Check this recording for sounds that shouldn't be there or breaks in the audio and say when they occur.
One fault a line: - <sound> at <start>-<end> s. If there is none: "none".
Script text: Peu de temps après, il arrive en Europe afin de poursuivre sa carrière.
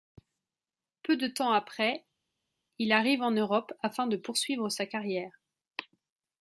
none